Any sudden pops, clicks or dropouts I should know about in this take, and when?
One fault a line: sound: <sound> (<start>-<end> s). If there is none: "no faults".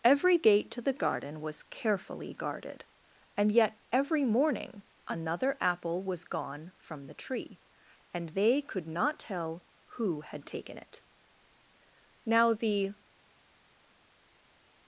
no faults